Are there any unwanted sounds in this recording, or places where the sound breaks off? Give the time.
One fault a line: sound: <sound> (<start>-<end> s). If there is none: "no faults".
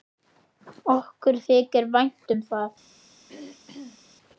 sound: throat clearing (3.3-4.0 s)